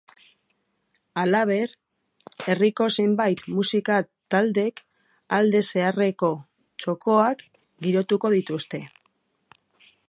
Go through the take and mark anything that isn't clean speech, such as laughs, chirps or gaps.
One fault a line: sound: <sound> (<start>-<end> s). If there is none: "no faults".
no faults